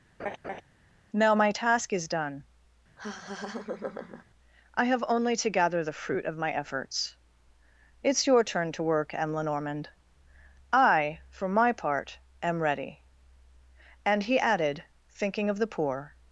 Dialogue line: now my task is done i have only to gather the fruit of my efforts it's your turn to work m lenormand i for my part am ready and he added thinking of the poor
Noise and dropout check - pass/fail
fail